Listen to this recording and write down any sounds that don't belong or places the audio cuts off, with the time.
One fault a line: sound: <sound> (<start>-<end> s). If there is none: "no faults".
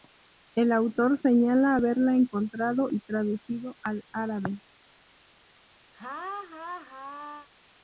sound: laugh (5.9-7.5 s)